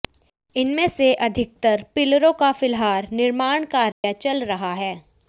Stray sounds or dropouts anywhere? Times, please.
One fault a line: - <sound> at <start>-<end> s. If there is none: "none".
- dropout at 3.9-4.0 s